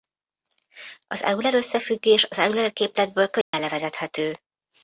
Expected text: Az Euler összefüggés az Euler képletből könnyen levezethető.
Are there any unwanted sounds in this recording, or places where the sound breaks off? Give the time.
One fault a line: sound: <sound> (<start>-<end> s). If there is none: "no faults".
sound: dropout (3.4-3.5 s)